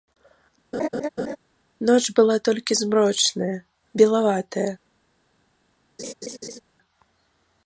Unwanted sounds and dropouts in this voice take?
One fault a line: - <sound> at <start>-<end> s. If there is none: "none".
- laugh at 0.7-1.4 s
- laugh at 6.0-6.6 s